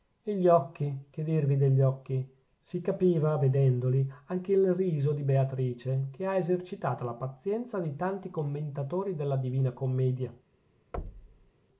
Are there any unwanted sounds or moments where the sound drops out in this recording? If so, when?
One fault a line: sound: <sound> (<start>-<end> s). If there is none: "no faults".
sound: thud (10.9-11.5 s)